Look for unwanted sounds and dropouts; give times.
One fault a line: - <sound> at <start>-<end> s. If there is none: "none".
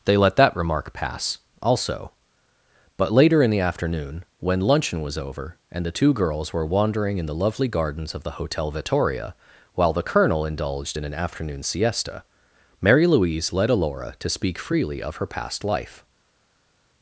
none